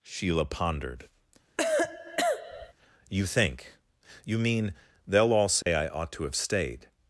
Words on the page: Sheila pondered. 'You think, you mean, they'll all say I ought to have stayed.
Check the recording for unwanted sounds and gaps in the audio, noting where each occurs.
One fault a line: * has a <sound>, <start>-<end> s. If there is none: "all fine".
* has a cough, 1.6-2.7 s
* has a dropout, 5.6-5.7 s